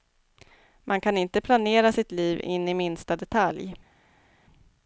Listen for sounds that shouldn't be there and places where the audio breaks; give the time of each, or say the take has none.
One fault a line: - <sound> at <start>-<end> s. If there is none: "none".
none